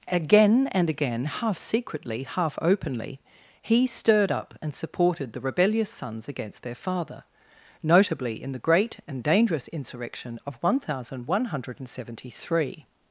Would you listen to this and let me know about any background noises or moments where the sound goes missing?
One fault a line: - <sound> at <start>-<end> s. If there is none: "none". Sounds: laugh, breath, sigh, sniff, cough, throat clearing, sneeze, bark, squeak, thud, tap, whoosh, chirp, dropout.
none